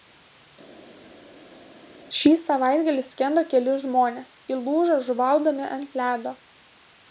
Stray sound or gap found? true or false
false